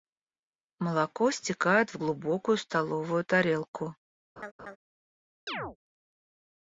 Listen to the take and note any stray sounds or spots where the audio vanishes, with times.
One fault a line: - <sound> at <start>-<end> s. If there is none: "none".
- laugh at 4.4-4.8 s
- chirp at 5.5-5.8 s